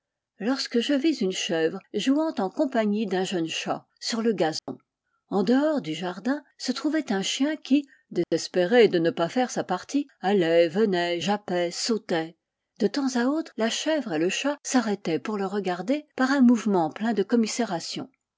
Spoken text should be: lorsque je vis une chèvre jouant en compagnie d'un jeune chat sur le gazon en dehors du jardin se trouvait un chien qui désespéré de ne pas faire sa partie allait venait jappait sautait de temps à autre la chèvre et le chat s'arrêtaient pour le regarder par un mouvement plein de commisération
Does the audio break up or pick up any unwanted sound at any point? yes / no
yes